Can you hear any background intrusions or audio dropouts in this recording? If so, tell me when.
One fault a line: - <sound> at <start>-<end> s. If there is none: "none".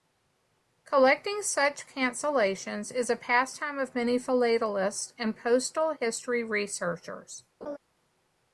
- laugh at 7.6-7.8 s